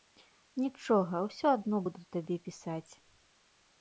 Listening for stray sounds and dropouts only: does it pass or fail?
pass